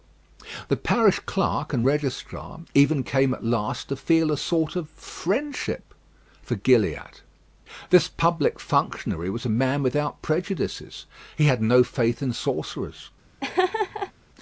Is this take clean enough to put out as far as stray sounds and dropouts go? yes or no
no